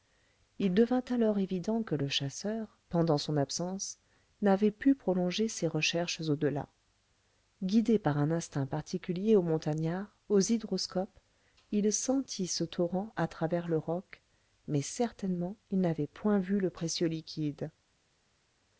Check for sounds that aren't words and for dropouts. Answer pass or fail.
pass